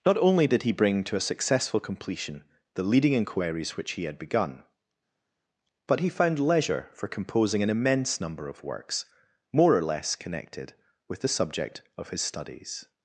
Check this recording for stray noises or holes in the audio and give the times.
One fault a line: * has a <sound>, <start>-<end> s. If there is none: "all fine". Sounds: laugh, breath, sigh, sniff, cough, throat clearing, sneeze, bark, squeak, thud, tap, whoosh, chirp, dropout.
all fine